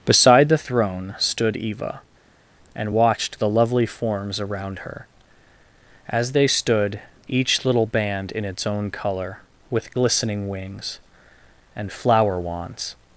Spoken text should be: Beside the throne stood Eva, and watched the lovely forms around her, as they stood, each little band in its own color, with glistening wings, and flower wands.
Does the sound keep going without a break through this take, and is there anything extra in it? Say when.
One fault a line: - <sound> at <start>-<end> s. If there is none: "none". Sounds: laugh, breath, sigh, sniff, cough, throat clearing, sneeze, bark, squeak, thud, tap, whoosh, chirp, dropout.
none